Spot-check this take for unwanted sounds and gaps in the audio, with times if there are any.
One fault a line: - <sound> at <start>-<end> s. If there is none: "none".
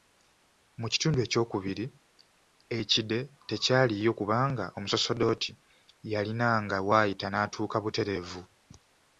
none